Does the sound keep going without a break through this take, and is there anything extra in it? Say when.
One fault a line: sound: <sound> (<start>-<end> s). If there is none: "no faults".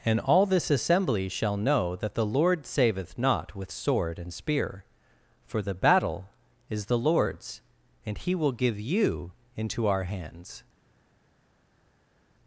no faults